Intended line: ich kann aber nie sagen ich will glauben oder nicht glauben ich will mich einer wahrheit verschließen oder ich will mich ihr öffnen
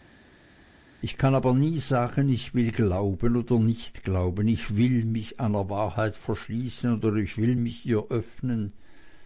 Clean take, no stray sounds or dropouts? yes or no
yes